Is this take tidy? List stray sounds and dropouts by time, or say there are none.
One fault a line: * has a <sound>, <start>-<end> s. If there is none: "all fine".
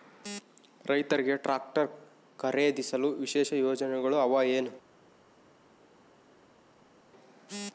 all fine